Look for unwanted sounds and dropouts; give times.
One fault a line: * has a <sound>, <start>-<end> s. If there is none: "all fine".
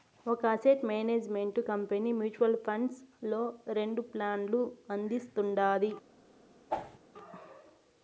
* has a whoosh, 6.7-7.0 s